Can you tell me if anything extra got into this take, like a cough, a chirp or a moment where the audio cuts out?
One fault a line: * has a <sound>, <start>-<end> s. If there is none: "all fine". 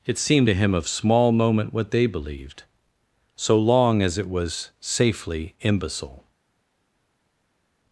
all fine